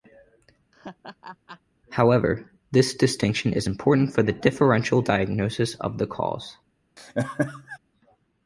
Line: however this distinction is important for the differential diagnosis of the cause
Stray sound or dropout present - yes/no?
yes